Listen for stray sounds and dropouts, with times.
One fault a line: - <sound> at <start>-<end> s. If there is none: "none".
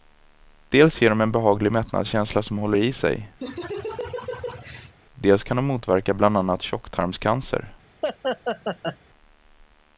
- laugh at 3.4-5.0 s
- laugh at 8.0-9.0 s